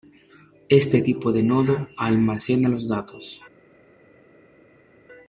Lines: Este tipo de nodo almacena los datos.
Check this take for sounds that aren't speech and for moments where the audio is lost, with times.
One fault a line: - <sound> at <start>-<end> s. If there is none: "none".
none